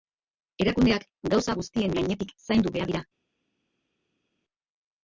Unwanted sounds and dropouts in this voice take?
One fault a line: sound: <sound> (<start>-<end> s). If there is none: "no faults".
no faults